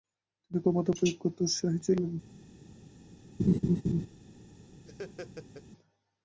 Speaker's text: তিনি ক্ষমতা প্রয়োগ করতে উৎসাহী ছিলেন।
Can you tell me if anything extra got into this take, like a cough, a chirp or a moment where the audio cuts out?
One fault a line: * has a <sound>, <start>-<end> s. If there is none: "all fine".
* has a laugh, 3.4-4.1 s
* has a laugh, 4.9-5.7 s